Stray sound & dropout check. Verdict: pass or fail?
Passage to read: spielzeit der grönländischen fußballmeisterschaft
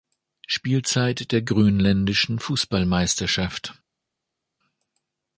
pass